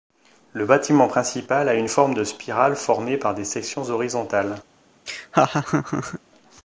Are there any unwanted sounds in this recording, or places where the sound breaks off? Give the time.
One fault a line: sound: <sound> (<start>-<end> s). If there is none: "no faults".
sound: laugh (5.1-6.2 s)